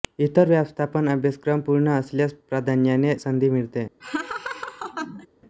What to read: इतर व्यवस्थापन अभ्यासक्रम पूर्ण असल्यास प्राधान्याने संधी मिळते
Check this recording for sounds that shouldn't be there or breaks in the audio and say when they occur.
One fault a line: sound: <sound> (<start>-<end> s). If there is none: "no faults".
sound: laugh (4.0-5.3 s)